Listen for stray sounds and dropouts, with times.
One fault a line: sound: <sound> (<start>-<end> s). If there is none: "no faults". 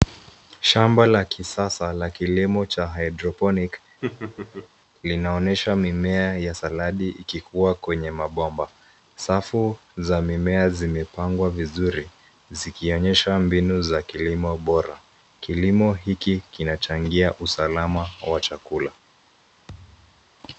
sound: laugh (4.0-4.7 s)
sound: thud (19.7-20.3 s)